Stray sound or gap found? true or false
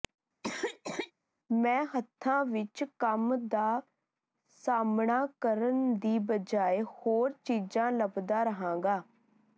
true